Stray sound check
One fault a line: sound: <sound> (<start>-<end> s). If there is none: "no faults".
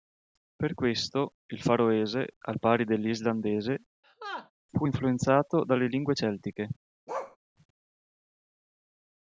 sound: laugh (4.0-4.5 s)
sound: bark (7.1-7.4 s)